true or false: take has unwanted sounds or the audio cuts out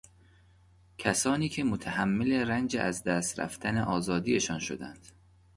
false